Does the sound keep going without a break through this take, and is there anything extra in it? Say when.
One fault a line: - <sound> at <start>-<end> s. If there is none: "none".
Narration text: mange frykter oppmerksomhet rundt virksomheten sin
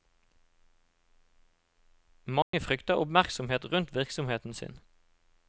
- dropout at 2.4-2.5 s